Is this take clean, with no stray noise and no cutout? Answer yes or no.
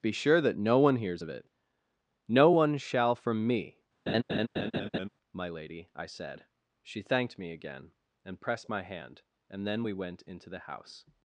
no